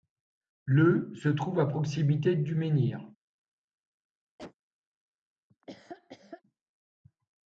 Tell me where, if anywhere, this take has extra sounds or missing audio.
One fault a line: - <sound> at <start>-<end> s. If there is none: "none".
- cough at 4.4-4.5 s
- laugh at 5.5-6.4 s